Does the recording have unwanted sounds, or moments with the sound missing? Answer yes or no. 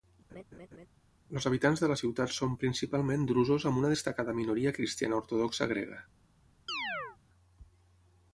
yes